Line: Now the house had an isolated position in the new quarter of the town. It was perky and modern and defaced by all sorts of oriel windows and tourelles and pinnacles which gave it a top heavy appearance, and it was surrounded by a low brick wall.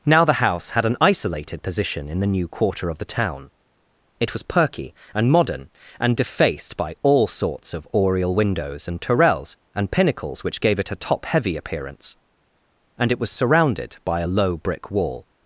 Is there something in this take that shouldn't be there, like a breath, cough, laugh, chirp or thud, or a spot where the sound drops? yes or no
no